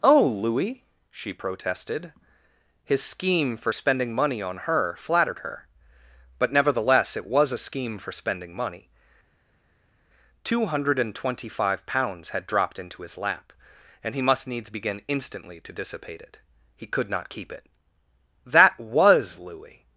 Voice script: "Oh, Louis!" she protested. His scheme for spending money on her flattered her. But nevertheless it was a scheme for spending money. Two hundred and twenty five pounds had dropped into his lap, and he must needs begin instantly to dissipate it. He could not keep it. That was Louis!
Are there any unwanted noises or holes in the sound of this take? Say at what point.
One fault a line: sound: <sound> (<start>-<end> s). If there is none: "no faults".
no faults